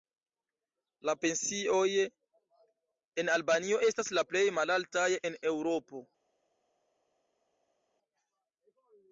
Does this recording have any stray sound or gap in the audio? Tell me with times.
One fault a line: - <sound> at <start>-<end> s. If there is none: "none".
none